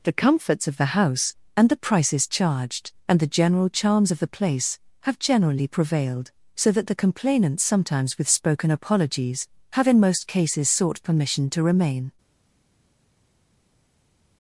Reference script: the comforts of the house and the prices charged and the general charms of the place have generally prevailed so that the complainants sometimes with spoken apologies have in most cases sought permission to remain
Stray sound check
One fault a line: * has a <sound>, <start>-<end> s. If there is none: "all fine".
all fine